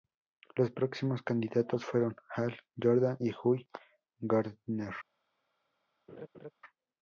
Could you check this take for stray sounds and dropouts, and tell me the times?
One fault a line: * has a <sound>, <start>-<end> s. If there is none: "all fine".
* has a laugh, 6.1-6.5 s